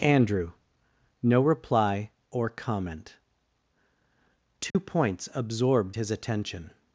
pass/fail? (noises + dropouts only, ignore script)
fail